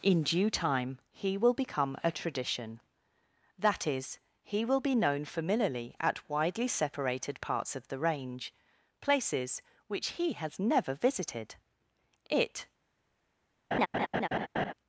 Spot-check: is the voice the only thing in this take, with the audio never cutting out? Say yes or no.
no